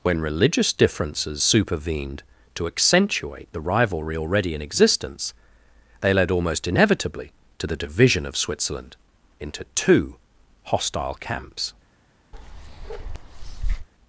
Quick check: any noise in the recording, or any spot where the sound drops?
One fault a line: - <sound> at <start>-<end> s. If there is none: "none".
- bark at 12.3-13.9 s